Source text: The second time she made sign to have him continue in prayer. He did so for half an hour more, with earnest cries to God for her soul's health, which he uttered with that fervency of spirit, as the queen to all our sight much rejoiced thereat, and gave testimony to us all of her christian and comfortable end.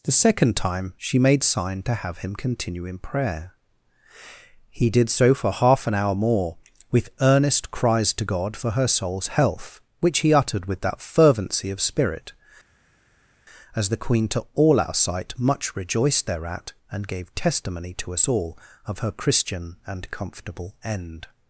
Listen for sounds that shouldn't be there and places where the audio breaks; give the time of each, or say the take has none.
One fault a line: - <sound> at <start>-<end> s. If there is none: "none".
none